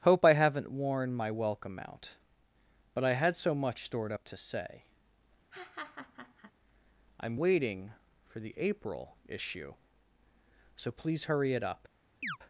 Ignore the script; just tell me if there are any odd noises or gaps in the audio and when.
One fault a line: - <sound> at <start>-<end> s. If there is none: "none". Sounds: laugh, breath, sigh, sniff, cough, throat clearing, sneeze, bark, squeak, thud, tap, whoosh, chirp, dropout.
- laugh at 5.5-6.5 s
- chirp at 12.2-12.4 s